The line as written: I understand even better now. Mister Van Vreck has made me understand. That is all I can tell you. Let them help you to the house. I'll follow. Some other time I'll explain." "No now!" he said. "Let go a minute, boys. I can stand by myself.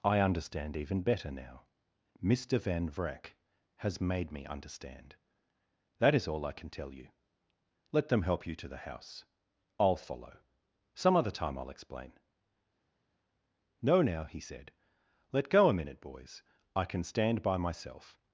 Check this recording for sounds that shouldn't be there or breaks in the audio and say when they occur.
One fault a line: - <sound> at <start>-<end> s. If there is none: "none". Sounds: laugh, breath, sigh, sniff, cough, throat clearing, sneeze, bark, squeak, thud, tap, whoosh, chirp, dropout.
none